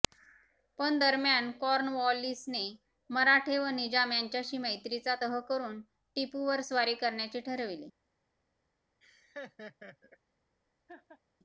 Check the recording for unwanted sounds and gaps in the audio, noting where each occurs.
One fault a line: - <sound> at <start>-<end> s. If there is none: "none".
- laugh at 9.0-10.2 s
- laugh at 10.9-11.2 s